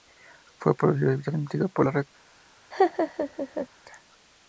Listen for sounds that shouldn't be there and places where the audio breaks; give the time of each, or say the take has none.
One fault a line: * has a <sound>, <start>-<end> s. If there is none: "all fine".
* has a laugh, 2.7-3.7 s